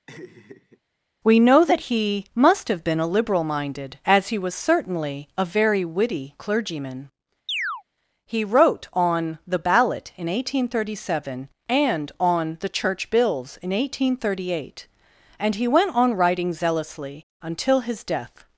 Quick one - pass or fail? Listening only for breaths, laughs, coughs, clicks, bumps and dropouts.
fail